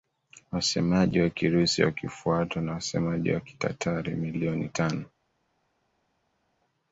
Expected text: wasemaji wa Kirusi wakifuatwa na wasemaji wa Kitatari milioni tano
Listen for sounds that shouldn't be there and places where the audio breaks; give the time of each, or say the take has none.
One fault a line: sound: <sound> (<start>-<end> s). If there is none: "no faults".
no faults